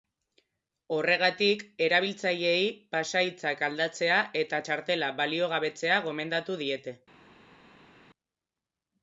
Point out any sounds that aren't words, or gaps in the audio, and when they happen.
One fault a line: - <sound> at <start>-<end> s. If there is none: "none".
none